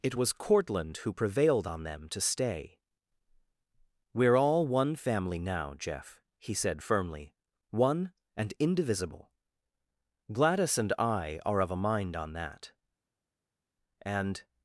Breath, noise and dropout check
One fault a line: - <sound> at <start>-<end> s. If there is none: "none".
none